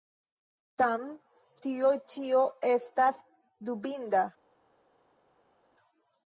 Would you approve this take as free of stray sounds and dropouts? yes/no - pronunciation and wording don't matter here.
yes